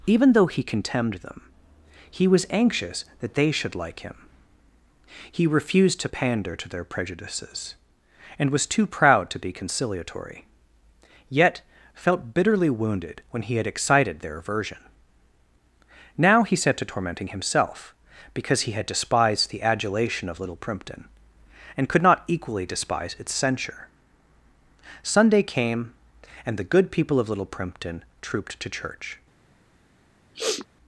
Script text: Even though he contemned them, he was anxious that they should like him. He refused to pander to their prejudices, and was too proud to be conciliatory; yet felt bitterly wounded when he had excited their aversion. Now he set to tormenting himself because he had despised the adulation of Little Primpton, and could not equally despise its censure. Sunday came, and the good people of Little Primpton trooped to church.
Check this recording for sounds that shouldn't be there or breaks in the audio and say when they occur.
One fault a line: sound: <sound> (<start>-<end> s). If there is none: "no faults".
sound: sniff (30.3-30.7 s)